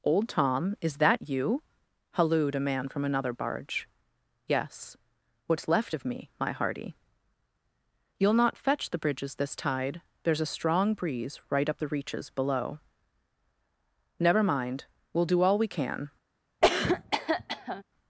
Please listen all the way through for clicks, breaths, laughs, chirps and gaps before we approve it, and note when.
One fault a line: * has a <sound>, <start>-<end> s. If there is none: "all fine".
* has a cough, 16.6-17.8 s